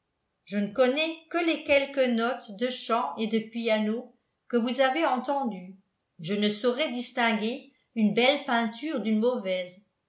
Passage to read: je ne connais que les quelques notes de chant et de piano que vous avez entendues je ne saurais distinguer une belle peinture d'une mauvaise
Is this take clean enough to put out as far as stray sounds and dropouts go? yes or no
yes